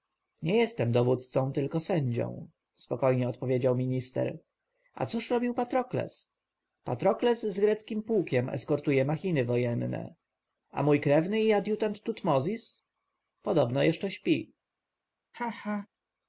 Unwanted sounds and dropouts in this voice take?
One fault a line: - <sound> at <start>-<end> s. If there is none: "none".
- laugh at 15.3-15.9 s